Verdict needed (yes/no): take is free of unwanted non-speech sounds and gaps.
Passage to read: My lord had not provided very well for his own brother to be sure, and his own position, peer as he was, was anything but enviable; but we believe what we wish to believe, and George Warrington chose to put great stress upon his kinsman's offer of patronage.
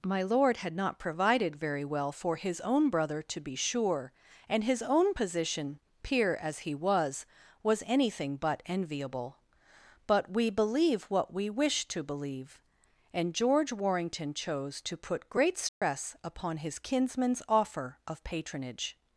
no